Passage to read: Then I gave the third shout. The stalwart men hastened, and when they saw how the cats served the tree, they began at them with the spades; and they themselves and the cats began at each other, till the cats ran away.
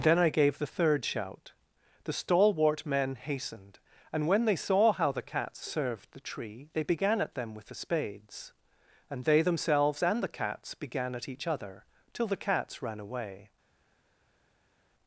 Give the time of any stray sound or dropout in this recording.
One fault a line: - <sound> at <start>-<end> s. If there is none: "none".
none